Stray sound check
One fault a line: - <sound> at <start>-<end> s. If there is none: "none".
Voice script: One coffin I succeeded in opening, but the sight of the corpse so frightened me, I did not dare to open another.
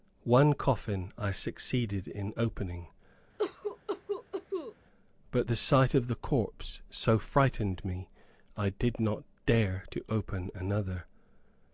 - cough at 3.4-4.8 s